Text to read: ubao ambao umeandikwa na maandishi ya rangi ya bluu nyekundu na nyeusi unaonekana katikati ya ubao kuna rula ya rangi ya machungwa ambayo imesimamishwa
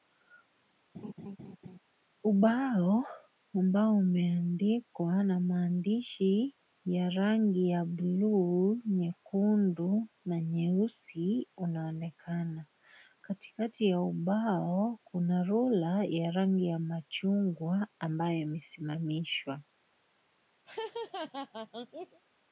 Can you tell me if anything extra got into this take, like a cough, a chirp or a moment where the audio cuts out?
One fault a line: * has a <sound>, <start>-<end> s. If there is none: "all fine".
* has a laugh, 0.9-1.8 s
* has a laugh, 20.7-22.2 s